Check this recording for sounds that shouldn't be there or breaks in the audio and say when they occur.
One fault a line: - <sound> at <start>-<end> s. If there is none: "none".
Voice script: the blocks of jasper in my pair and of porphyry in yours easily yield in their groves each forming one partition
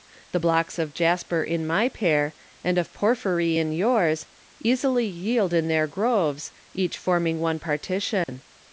- dropout at 8.2-8.3 s